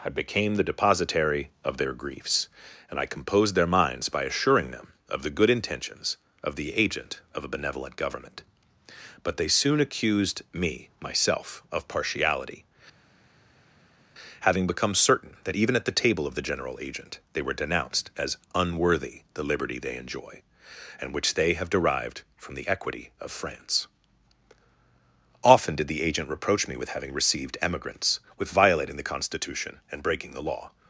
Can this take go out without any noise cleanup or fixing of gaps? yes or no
yes